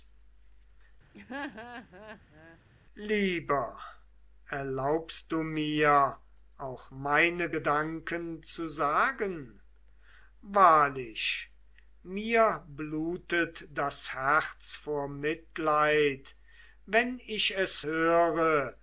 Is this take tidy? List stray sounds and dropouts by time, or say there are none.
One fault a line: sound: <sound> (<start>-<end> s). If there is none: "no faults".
sound: laugh (1.1-2.6 s)